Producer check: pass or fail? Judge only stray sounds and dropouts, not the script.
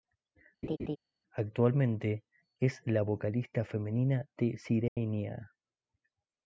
fail